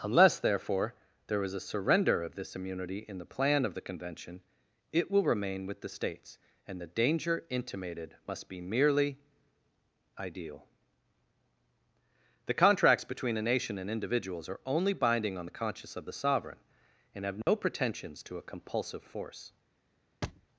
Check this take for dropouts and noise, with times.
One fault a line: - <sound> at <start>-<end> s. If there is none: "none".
- dropout at 17.4-17.5 s
- thud at 20.2-20.5 s